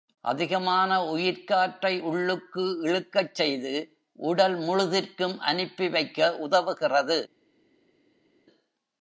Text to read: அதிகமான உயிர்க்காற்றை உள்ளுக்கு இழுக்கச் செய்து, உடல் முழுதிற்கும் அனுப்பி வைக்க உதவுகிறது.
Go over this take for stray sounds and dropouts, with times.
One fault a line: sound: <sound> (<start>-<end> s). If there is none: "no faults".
no faults